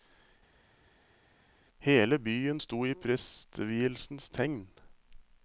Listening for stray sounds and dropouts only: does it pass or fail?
pass